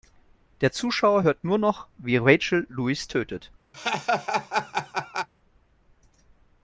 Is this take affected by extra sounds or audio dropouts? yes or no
yes